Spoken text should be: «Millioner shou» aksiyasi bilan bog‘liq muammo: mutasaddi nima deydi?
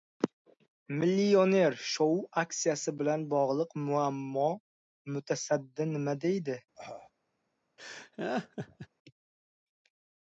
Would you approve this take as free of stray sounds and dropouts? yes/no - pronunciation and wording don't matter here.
no